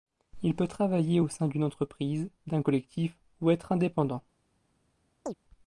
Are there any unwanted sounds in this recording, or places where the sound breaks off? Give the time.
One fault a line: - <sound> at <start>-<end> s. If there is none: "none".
- chirp at 5.3-5.3 s